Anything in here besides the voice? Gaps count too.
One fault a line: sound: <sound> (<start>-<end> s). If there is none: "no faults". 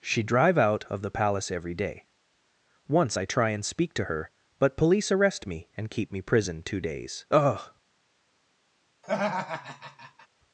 sound: laugh (9.0-10.3 s)